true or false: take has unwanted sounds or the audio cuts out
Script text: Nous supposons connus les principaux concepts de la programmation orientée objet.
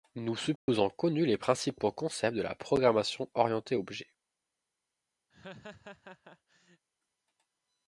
true